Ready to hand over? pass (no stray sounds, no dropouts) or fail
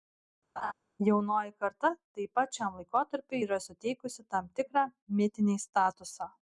fail